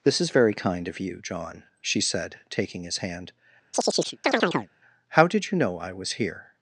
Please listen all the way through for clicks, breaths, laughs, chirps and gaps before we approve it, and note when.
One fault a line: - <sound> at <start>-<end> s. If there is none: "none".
- chirp at 3.7-4.7 s